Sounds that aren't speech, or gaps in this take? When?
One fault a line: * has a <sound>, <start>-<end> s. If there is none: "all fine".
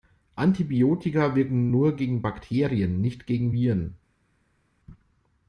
all fine